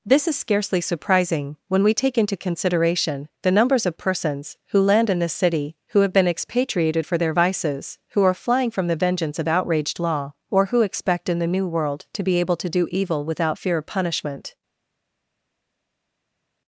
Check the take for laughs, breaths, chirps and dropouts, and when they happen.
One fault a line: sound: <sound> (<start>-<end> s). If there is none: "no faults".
no faults